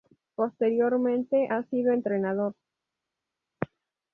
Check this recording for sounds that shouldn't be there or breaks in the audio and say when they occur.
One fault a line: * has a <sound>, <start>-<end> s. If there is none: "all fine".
all fine